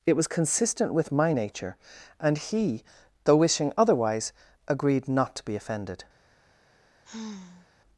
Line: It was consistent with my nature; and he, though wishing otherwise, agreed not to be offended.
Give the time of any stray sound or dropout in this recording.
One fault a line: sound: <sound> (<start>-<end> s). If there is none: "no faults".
sound: sigh (7.0-7.7 s)